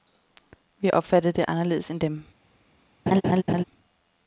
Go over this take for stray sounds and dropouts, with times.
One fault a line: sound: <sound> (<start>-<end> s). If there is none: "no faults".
sound: laugh (3.1-3.6 s)